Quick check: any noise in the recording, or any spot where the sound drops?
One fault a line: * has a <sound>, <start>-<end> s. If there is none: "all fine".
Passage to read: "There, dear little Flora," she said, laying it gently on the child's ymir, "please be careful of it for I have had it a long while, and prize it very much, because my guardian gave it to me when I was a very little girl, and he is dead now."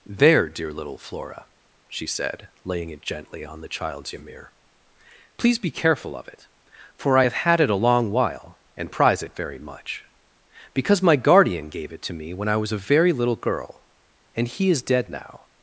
all fine